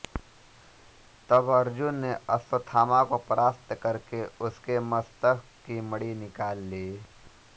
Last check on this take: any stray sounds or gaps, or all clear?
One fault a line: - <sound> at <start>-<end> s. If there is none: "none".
none